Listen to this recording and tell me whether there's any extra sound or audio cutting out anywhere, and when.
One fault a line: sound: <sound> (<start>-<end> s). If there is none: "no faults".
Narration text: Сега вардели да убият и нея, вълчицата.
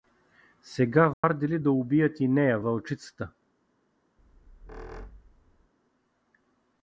sound: dropout (1.1-1.2 s)
sound: squeak (4.2-5.7 s)